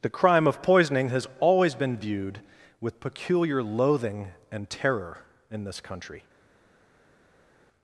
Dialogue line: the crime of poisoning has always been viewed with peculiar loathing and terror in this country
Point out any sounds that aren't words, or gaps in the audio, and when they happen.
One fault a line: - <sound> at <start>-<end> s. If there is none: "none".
none